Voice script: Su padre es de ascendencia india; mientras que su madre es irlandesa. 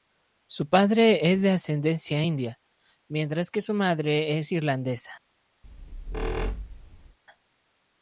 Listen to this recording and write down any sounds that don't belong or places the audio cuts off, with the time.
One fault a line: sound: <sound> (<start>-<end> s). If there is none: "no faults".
sound: squeak (5.6-7.2 s)